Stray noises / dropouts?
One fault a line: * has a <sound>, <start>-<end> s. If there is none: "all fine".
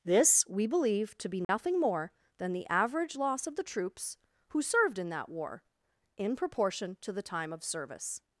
* has a dropout, 1.4-1.5 s